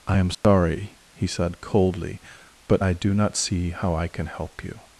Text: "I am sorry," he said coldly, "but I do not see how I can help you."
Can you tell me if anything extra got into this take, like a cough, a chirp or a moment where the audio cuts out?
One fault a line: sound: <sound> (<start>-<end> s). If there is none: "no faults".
sound: dropout (0.3-0.4 s)